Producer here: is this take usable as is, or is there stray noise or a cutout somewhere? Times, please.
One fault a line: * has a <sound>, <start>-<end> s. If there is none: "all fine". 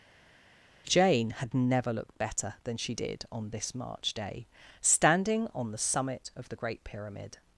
all fine